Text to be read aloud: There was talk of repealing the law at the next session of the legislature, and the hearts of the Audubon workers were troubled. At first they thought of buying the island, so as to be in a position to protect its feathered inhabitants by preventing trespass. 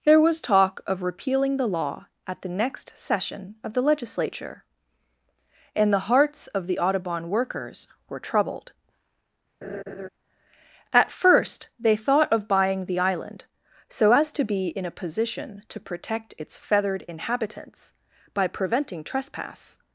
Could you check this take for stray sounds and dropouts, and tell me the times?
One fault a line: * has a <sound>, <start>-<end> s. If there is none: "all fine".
* has a laugh, 9.6-10.1 s